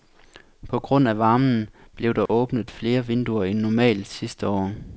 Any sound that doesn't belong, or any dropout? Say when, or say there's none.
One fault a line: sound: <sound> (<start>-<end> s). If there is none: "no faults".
sound: dropout (2.3-2.3 s)